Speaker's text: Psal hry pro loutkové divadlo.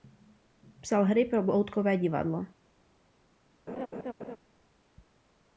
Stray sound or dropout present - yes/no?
yes